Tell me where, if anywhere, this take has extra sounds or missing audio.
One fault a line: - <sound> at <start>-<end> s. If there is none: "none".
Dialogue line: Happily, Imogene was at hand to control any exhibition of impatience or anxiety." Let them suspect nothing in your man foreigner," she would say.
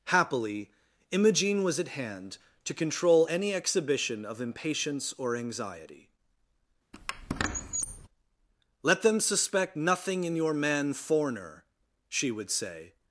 - squeak at 6.9-8.1 s